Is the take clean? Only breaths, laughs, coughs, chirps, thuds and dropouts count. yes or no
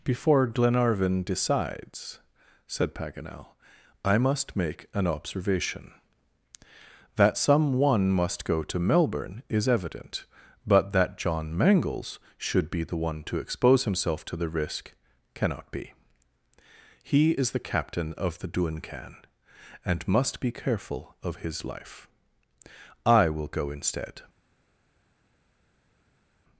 yes